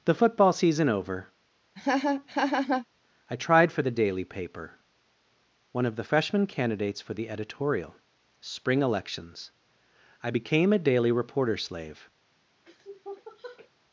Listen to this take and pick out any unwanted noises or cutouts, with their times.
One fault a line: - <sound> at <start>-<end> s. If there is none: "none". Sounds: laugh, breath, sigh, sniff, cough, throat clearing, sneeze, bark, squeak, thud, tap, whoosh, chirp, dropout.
- laugh at 1.8-2.9 s
- sniff at 12.7-13.7 s